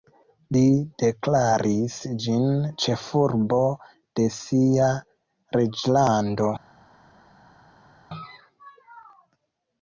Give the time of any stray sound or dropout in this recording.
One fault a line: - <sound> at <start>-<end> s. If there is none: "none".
none